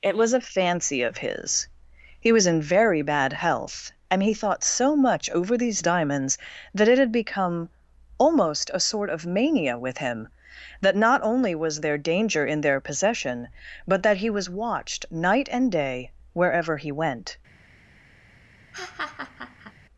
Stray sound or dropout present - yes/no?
yes